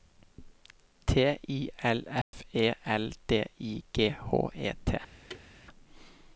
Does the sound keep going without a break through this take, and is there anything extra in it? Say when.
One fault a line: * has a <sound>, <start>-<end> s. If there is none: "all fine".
* has a dropout, 2.2-2.3 s
* has a thud, 5.3-5.5 s